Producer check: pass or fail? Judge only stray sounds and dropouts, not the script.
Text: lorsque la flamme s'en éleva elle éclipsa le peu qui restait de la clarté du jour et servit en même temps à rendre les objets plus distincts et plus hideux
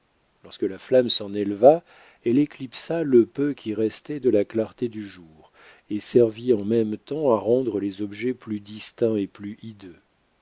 pass